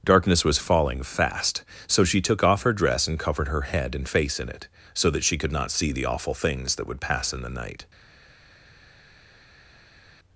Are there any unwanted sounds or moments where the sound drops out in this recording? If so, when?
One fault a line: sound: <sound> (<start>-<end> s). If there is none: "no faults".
no faults